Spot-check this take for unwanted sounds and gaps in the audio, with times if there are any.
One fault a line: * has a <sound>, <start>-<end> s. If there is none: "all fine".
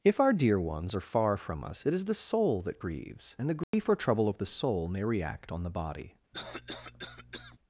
* has a dropout, 3.6-3.7 s
* has a cough, 6.3-7.6 s